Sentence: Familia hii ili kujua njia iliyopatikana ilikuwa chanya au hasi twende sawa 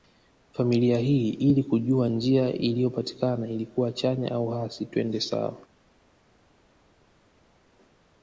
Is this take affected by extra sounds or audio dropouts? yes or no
no